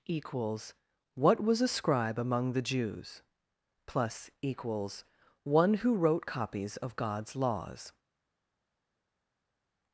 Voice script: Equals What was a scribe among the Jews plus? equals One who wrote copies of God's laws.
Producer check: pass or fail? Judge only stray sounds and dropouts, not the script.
pass